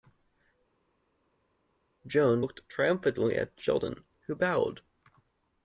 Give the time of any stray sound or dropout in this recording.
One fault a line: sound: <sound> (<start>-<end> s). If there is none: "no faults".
no faults